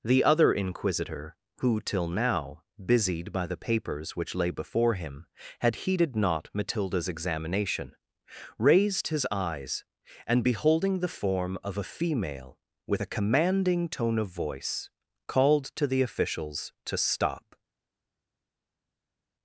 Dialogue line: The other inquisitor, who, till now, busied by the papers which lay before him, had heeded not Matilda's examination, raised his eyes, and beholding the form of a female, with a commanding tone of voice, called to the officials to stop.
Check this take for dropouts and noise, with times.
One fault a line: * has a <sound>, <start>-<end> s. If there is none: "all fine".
all fine